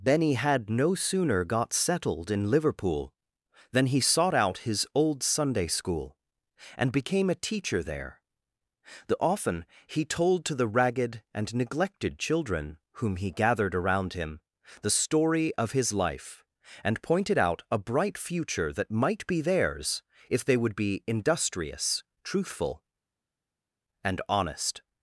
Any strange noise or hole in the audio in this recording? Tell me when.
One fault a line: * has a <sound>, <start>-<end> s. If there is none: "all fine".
all fine